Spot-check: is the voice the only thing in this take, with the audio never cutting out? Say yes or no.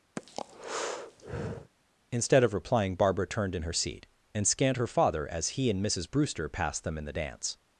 no